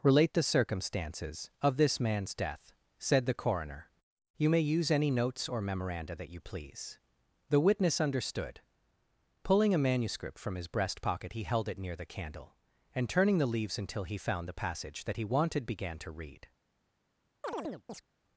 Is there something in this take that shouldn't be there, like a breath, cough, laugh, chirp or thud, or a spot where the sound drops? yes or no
yes